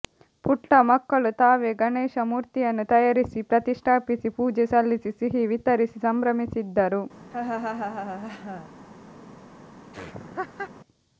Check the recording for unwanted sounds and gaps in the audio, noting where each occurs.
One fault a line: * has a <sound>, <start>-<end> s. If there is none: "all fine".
* has a laugh, 7.3-8.7 s
* has a laugh, 9.9-10.7 s